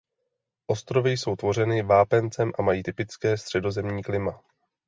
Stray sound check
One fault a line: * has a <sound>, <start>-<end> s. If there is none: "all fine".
all fine